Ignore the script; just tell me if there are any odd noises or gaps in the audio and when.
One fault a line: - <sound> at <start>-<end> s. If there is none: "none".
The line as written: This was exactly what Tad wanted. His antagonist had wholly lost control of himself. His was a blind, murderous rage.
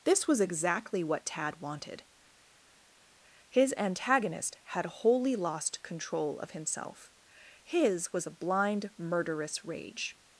none